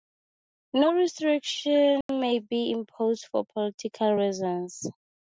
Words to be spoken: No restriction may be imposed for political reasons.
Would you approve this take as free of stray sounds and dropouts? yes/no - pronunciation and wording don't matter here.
no